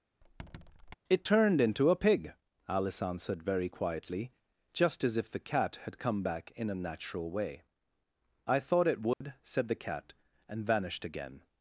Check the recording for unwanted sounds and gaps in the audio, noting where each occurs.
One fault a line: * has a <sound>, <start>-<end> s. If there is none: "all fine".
* has a squeak, 0.2-1.0 s
* has a dropout, 9.1-9.2 s